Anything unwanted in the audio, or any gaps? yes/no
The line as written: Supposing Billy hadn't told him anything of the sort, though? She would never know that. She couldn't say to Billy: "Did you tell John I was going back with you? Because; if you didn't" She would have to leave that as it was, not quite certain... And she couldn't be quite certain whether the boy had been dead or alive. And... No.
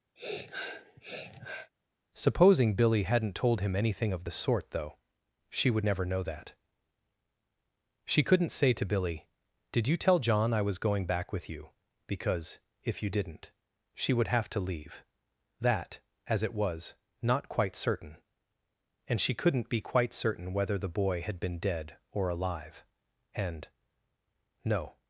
yes